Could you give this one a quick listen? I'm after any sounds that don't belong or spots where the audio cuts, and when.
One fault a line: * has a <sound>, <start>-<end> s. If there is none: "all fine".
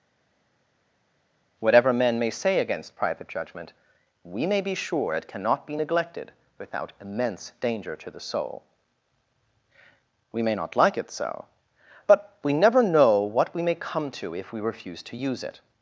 all fine